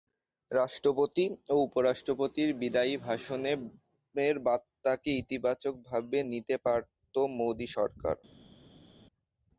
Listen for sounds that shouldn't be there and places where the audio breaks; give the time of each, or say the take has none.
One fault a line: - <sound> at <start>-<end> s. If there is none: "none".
none